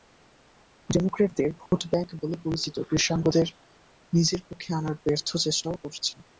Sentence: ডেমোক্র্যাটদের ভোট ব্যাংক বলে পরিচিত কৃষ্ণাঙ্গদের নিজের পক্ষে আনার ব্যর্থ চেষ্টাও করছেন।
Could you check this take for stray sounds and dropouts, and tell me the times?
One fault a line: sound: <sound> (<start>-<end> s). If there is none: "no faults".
sound: dropout (1.7-1.7 s)